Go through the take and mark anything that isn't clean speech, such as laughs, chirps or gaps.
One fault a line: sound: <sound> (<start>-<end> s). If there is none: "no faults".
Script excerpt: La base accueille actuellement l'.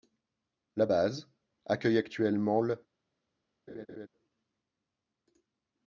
sound: laugh (3.7-4.1 s)